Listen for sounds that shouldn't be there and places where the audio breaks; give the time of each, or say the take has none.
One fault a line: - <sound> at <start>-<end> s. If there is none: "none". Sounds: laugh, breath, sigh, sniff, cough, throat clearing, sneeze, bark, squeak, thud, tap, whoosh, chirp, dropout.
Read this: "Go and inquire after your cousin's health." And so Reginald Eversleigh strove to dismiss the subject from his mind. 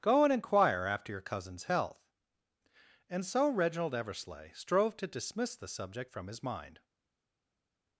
none